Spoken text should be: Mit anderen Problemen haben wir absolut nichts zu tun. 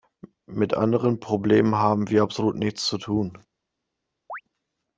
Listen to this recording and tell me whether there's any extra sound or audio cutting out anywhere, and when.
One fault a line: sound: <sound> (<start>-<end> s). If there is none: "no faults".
sound: chirp (4.3-4.4 s)